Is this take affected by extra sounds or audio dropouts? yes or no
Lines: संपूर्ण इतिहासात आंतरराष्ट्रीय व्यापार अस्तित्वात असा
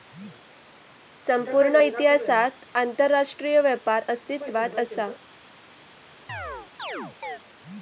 yes